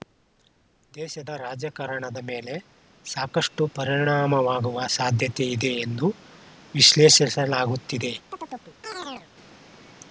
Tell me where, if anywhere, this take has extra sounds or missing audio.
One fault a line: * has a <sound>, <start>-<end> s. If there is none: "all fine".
* has a chirp, 8.3-9.3 s